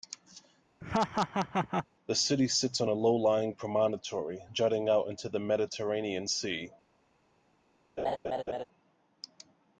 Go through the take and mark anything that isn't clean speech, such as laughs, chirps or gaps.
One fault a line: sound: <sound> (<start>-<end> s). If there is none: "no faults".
sound: laugh (0.8-1.9 s)
sound: laugh (8.0-8.6 s)